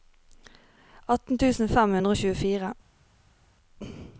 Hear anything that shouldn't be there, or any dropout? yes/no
no